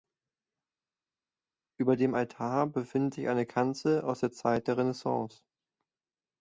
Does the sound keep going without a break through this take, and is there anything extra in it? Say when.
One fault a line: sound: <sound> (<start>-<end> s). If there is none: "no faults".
no faults